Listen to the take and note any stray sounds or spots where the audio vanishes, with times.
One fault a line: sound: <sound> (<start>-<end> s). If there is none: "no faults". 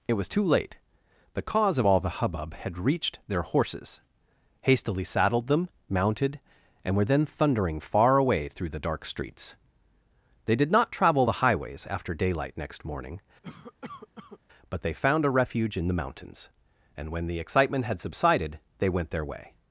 sound: cough (13.4-14.4 s)